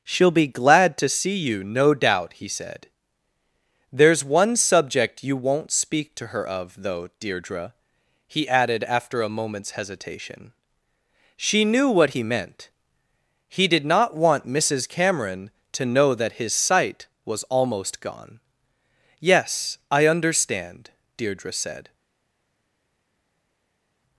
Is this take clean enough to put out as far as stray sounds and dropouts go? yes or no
yes